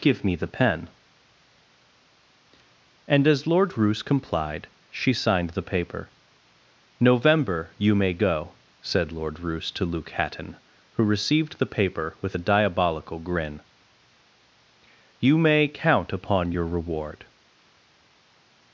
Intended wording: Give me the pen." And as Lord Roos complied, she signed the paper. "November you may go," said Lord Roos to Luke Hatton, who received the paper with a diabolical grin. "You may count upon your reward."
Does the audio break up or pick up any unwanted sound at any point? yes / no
no